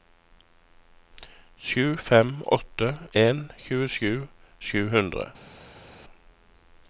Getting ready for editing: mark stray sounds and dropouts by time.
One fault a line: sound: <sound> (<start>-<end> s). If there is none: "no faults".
no faults